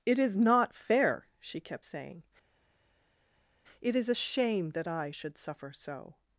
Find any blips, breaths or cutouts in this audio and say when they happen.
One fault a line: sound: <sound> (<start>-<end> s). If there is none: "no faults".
no faults